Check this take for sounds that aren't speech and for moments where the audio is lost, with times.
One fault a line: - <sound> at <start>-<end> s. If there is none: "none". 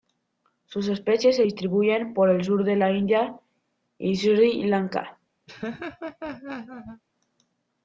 - laugh at 5.5-7.0 s